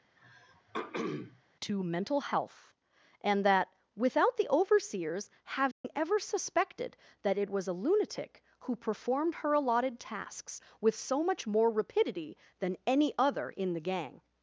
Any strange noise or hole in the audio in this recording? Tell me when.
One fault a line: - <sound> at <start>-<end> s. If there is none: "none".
- throat clearing at 0.2-1.4 s
- dropout at 5.7-5.8 s